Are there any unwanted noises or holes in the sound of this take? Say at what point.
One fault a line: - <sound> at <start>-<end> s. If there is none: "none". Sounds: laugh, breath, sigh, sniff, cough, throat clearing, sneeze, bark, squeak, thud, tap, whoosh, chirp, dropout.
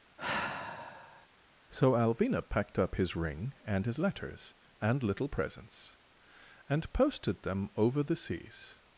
- sigh at 0.2-1.3 s